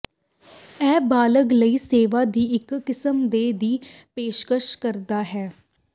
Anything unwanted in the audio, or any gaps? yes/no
no